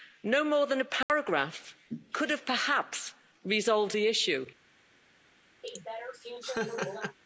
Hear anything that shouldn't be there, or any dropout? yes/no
yes